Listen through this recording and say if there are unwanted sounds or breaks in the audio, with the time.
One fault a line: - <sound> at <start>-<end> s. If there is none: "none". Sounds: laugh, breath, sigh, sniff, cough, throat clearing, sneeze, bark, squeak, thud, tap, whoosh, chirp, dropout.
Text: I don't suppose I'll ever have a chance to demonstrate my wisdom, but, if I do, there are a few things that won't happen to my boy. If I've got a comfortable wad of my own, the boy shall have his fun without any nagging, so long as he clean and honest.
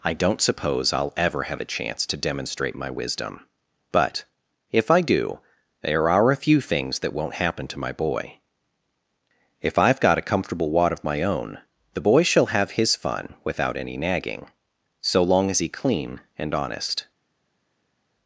none